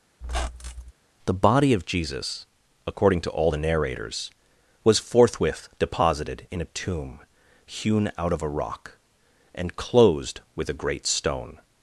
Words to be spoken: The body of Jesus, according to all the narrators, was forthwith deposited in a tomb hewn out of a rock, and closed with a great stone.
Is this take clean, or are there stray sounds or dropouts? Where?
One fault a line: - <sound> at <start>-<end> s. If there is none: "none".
- squeak at 0.2-0.9 s